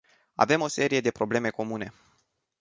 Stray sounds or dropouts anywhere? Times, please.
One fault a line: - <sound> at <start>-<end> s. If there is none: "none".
none